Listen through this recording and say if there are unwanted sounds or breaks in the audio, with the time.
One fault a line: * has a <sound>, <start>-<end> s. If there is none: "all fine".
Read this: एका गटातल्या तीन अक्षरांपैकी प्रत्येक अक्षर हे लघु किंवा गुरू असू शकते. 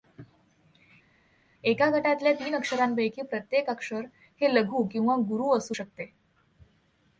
all fine